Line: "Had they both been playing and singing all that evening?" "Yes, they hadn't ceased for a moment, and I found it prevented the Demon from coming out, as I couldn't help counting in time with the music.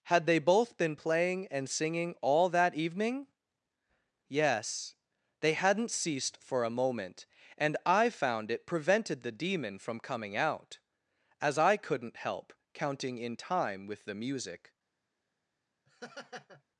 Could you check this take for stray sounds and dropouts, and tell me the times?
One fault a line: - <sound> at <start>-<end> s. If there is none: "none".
- laugh at 15.9-16.6 s